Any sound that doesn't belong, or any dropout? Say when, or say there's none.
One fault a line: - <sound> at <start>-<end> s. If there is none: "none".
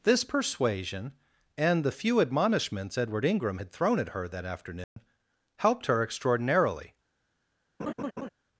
- dropout at 4.8-5.0 s
- laugh at 7.8-8.3 s